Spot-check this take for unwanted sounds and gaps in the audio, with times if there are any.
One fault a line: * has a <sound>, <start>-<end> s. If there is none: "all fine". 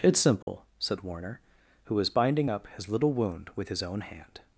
* has a dropout, 0.4-0.5 s